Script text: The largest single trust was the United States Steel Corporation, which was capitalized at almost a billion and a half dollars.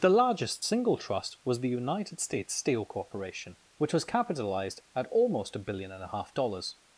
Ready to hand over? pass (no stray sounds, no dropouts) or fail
pass